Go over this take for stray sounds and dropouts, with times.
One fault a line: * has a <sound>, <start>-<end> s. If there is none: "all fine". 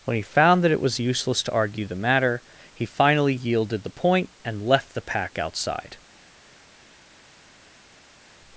all fine